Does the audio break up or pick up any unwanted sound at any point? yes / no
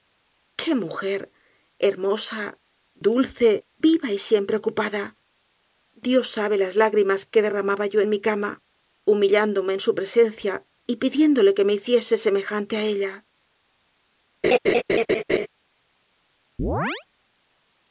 yes